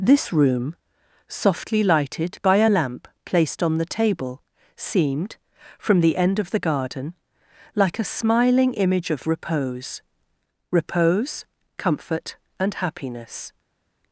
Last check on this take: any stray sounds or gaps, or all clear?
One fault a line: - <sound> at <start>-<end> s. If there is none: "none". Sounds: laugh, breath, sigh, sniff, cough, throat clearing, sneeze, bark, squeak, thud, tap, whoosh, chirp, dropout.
none